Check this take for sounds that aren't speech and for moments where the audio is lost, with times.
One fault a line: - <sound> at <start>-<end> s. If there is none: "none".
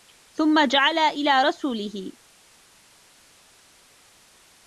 none